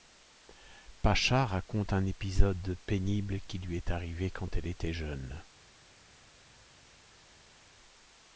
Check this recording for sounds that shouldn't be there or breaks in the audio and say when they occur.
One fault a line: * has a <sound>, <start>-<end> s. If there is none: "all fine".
all fine